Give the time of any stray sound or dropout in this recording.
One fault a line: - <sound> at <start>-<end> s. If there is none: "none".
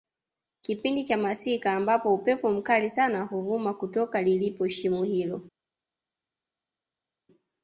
none